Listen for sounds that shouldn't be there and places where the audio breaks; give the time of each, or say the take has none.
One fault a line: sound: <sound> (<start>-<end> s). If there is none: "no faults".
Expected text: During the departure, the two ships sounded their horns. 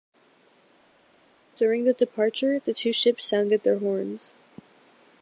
no faults